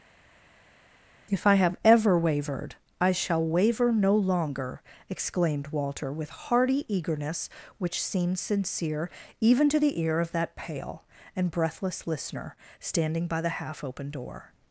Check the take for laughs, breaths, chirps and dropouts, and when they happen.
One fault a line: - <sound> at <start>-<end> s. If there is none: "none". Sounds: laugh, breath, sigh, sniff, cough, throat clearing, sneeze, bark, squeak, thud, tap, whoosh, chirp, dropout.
none